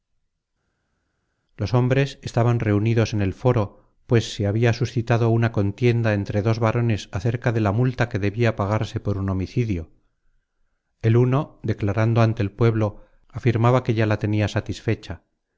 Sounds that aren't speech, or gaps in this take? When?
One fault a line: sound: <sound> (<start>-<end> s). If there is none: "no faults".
no faults